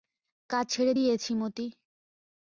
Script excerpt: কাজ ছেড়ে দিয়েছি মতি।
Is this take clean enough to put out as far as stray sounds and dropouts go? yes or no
yes